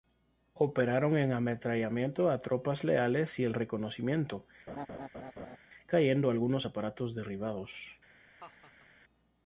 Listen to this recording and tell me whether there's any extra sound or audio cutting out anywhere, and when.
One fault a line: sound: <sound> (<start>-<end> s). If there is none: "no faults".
sound: laugh (4.7-5.6 s)
sound: laugh (8.4-8.9 s)